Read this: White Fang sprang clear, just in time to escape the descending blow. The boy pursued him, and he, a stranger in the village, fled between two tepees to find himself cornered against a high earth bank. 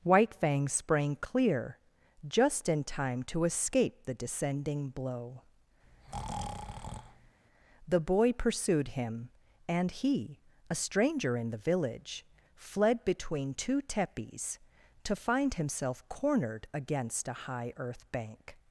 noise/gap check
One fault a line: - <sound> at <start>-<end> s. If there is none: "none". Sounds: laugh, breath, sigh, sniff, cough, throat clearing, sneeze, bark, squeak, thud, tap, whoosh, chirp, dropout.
- breath at 5.8-7.4 s